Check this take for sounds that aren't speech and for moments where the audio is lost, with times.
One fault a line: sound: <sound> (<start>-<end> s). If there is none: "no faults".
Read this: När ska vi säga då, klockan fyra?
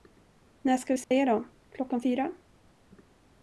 sound: dropout (1.0-1.1 s)